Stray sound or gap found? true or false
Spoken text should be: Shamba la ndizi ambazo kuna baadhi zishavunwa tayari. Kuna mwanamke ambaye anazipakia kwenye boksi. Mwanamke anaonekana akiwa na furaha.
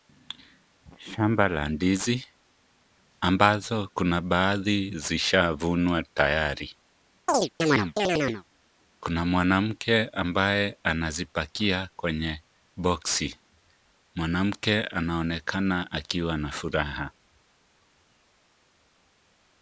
true